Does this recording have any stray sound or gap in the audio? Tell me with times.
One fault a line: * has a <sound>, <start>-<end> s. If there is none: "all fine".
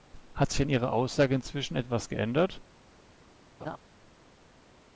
* has a laugh, 3.6-3.8 s